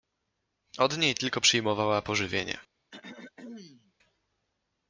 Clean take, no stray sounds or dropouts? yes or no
no